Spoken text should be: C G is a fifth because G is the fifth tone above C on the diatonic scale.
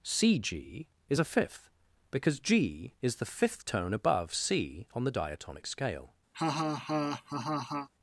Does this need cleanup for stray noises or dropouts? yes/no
yes